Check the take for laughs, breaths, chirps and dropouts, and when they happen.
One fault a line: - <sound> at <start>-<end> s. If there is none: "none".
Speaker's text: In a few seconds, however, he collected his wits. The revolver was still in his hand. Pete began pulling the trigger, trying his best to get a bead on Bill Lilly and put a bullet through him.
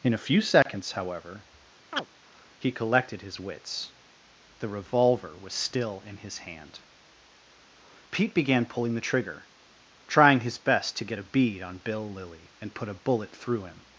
- dropout at 0.6-0.7 s
- chirp at 1.9-2.1 s